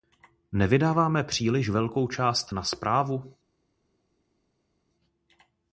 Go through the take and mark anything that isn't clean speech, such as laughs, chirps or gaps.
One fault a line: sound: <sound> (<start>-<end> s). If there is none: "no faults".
no faults